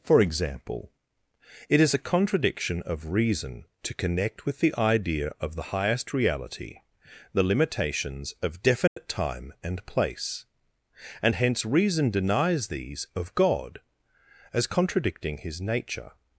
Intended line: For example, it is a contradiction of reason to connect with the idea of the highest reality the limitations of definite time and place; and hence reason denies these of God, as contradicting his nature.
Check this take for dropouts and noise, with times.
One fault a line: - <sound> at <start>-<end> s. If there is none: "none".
- dropout at 8.9-9.0 s